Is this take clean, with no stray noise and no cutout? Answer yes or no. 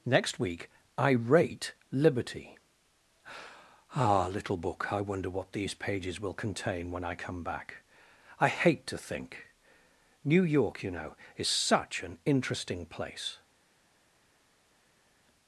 yes